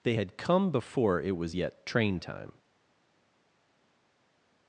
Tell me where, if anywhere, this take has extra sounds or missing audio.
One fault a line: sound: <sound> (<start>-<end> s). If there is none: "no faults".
no faults